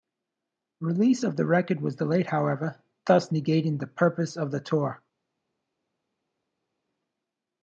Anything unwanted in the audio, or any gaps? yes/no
no